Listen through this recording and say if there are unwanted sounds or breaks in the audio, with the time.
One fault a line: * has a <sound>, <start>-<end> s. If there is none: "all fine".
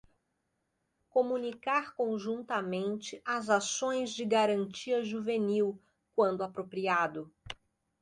all fine